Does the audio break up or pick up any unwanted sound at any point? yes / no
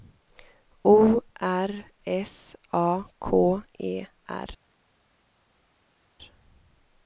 no